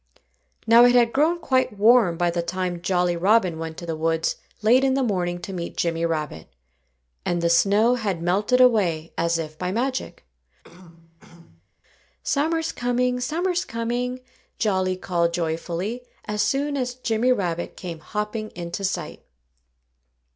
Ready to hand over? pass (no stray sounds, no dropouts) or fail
fail